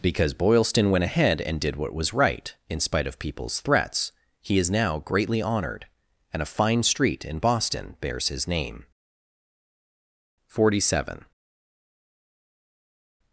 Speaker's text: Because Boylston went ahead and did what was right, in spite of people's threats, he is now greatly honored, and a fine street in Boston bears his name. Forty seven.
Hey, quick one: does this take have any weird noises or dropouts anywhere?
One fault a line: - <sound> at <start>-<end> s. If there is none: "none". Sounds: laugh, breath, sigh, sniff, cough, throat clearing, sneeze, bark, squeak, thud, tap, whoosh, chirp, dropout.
none